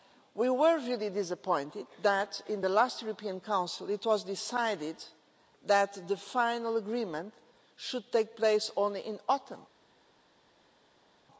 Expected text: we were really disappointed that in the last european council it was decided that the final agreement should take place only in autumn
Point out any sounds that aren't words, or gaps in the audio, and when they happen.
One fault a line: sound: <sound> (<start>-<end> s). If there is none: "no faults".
no faults